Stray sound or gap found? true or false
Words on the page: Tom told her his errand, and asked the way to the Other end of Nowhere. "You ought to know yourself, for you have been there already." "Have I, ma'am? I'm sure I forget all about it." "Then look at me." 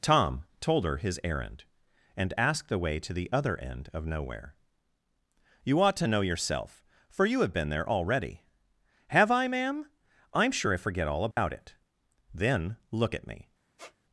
true